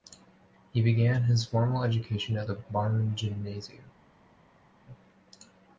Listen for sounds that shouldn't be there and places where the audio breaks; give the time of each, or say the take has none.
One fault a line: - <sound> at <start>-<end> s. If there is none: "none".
none